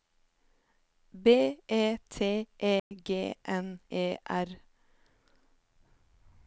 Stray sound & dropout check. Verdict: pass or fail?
fail